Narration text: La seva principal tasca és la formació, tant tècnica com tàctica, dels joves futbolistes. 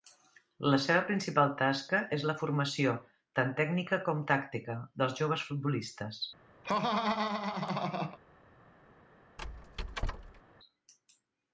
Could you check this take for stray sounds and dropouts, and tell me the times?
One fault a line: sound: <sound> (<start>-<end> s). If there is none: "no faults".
sound: laugh (6.6-8.2 s)
sound: squeak (9.4-10.4 s)